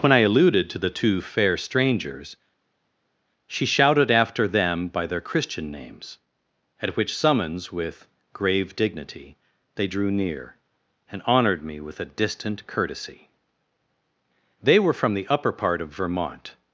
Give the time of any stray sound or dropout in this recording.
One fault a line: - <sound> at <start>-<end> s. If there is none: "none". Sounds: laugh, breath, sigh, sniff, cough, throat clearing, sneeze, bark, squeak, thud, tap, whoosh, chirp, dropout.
none